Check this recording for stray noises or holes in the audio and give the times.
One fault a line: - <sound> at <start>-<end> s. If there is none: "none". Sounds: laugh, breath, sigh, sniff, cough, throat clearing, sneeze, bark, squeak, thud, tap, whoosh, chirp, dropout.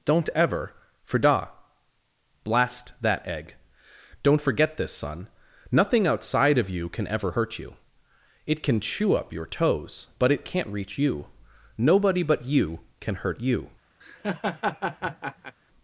- laugh at 14.0-15.6 s